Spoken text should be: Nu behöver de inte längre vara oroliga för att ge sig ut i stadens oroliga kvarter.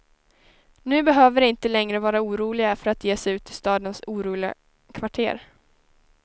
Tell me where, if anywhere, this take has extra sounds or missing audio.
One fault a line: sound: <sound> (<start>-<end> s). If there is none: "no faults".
no faults